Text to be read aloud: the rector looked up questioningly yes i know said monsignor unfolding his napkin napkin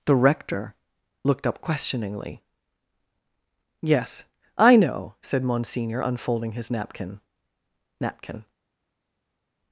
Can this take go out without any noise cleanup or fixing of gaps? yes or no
yes